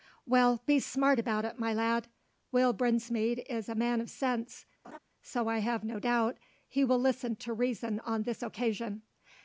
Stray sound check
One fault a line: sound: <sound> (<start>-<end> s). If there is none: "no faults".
sound: laugh (4.8-5.0 s)